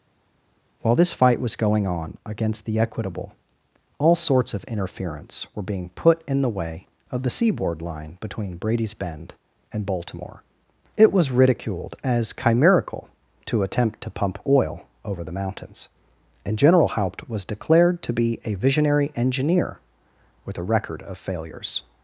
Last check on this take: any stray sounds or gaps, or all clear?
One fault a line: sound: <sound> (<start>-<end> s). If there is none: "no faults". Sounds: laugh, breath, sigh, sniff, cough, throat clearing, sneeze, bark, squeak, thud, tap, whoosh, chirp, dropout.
no faults